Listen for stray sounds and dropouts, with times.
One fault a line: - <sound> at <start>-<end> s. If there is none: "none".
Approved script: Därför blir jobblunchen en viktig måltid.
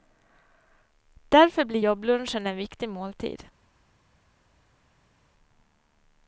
none